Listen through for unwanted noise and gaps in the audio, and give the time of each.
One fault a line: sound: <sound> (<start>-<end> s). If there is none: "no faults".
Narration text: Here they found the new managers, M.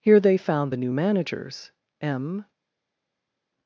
no faults